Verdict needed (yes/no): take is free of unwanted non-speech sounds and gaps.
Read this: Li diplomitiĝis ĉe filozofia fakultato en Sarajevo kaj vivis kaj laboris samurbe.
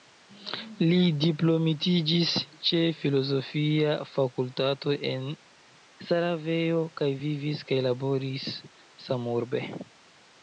yes